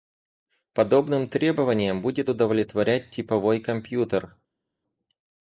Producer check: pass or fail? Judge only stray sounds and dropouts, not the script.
pass